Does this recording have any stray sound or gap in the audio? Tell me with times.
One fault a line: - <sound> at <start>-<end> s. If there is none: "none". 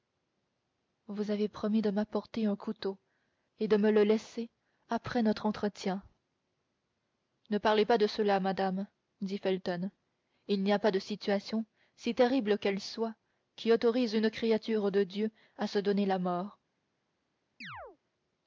- chirp at 17.6-18.0 s